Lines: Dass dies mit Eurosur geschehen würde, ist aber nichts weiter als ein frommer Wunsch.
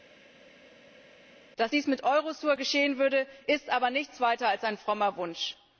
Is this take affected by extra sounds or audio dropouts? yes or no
no